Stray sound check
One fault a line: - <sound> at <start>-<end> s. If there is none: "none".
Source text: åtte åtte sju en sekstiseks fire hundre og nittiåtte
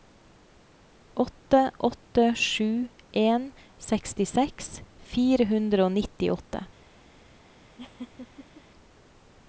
- laugh at 7.8-8.6 s